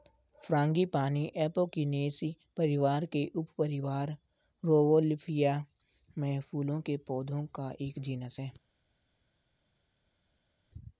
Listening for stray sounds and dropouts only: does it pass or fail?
pass